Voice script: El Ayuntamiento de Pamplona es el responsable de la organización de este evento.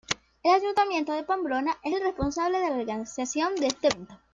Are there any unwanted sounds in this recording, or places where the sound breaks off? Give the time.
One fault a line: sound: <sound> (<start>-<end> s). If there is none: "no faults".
no faults